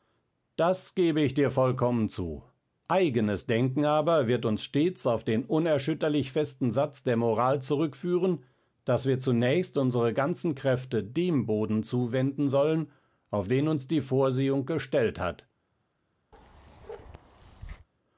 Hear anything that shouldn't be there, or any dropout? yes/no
yes